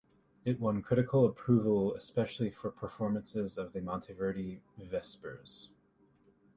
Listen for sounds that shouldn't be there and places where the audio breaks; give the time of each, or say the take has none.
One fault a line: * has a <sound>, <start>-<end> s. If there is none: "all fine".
all fine